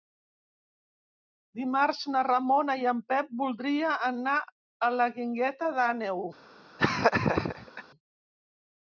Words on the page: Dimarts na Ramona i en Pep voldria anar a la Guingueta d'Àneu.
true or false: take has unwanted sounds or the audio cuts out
true